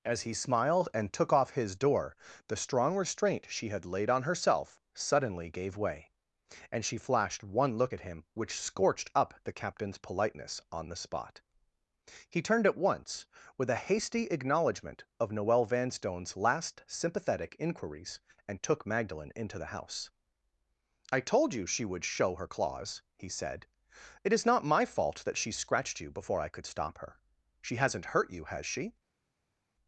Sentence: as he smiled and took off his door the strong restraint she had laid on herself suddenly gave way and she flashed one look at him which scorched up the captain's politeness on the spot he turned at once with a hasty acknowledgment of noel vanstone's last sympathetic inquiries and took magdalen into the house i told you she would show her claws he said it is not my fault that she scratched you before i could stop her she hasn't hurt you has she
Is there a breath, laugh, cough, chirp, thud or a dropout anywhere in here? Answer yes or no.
no